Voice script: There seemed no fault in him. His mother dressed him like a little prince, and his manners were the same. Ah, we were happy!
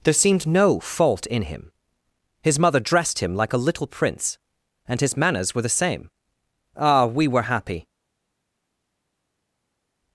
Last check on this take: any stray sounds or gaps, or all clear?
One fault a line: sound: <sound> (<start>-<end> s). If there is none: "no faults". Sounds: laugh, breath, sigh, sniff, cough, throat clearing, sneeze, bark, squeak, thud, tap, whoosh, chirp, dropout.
no faults